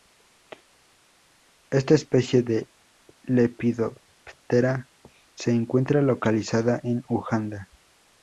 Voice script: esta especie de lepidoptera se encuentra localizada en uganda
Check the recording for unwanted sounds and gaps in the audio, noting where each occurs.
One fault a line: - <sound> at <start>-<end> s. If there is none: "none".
none